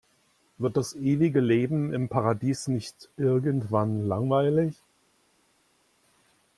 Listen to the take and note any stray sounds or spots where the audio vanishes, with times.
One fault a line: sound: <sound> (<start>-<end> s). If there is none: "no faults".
no faults